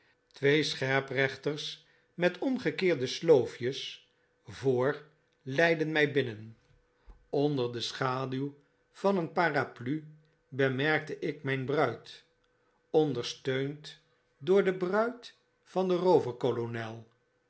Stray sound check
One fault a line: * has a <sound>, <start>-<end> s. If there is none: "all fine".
all fine